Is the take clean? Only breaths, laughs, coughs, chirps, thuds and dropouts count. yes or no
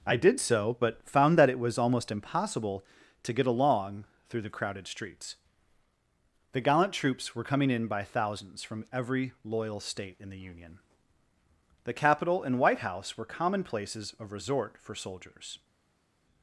yes